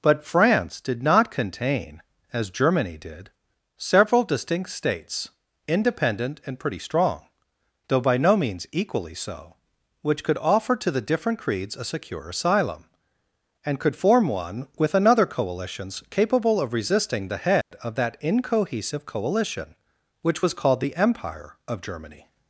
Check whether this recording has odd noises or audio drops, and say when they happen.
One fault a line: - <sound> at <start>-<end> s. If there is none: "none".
- dropout at 17.6-17.7 s